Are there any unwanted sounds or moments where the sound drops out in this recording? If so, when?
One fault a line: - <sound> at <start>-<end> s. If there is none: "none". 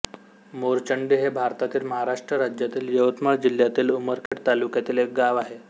- dropout at 4.3-4.3 s